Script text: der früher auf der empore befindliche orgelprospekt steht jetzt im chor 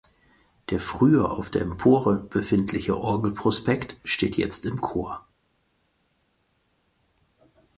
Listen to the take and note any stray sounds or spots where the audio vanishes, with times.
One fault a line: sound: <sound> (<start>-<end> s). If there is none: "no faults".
no faults